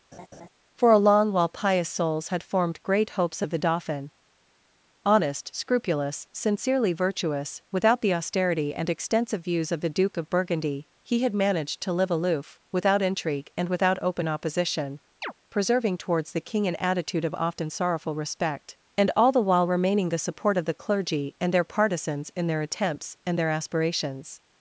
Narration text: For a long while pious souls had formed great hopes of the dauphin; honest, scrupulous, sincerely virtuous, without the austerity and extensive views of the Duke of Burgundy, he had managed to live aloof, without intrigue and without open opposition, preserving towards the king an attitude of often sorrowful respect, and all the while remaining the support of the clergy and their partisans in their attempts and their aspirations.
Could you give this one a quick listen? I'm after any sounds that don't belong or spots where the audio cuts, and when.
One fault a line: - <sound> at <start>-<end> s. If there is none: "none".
- laugh at 0.1-0.5 s
- chirp at 15.2-15.3 s